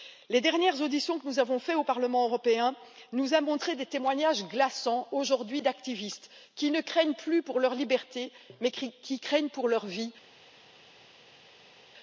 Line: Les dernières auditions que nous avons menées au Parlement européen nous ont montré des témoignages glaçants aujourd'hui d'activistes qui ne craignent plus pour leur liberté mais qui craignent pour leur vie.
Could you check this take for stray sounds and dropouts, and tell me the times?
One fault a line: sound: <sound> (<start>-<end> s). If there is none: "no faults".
no faults